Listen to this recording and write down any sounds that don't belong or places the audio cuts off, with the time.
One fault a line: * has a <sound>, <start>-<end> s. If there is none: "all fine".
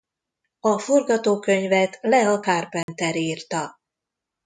* has a dropout, 2.8-2.9 s